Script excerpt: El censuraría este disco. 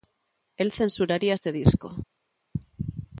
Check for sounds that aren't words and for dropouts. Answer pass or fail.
pass